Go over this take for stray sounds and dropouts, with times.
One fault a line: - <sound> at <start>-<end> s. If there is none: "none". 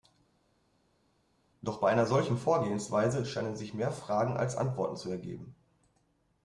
none